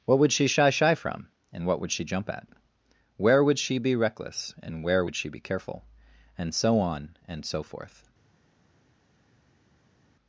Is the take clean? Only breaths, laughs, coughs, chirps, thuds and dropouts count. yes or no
yes